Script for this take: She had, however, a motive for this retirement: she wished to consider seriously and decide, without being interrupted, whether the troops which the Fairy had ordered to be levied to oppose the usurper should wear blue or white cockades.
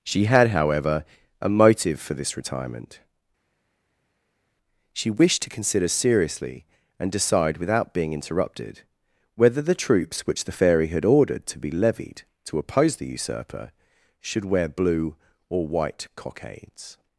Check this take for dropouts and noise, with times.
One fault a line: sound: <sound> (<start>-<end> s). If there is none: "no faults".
no faults